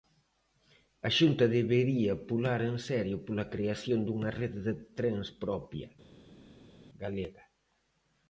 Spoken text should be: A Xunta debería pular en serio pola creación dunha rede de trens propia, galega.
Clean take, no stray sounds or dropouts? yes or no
yes